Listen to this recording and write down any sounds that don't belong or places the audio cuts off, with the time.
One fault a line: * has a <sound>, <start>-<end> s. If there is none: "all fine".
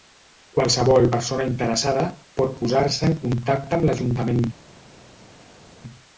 all fine